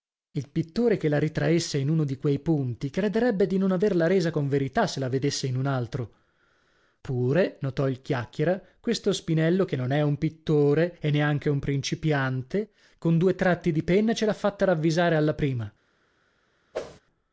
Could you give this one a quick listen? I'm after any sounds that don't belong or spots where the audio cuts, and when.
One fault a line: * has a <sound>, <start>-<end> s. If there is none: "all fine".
* has a whoosh, 16.7-17.0 s